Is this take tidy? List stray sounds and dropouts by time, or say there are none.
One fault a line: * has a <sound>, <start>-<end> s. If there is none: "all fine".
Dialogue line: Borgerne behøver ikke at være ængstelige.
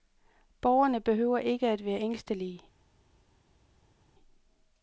all fine